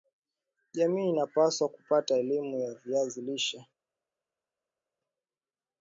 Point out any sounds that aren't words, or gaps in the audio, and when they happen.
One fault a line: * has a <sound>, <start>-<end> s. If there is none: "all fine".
all fine